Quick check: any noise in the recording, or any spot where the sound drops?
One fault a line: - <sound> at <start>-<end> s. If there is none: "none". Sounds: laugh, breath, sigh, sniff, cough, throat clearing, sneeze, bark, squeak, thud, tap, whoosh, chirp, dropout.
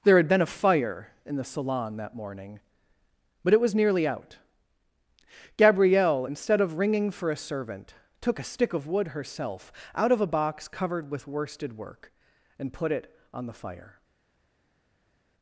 none